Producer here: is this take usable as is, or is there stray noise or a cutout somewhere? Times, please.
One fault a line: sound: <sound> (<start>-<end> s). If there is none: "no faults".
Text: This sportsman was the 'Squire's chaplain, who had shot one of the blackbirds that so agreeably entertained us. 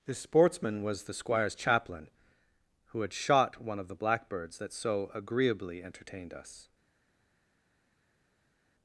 no faults